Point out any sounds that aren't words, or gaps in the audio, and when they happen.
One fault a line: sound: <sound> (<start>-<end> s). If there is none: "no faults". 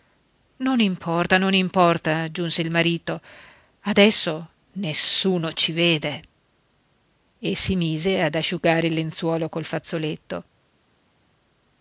no faults